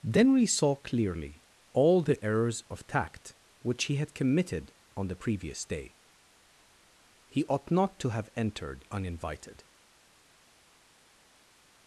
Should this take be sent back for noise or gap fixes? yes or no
no